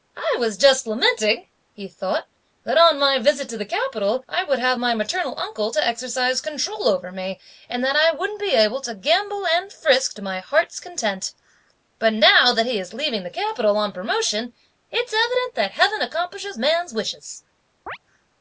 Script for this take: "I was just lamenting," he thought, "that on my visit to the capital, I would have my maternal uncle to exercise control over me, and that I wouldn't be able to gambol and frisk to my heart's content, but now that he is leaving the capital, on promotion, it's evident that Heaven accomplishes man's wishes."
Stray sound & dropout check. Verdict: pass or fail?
fail